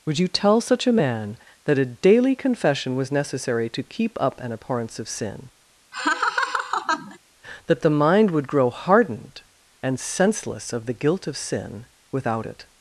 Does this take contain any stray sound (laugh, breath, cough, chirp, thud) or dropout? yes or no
yes